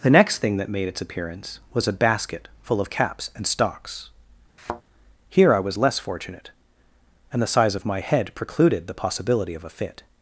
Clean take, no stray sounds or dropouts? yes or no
no